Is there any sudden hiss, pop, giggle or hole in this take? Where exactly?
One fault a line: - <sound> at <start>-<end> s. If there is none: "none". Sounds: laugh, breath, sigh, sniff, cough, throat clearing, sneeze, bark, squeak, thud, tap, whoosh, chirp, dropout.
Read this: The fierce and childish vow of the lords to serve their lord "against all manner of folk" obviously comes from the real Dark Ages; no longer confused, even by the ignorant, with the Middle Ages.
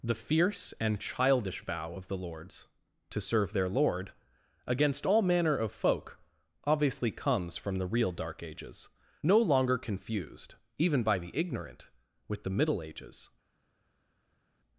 none